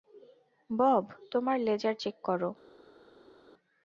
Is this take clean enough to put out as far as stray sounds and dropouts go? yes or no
yes